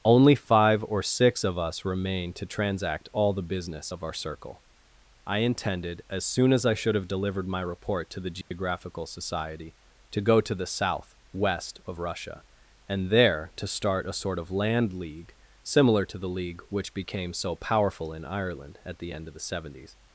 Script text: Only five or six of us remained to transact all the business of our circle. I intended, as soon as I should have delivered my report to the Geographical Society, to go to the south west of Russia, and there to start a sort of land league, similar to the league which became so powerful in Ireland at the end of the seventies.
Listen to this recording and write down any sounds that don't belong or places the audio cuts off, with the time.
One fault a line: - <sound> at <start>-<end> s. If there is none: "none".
- dropout at 8.4-8.5 s